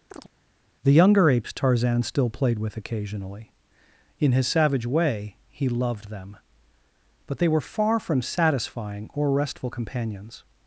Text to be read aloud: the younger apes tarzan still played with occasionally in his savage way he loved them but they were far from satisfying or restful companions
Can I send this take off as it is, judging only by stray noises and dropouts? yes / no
no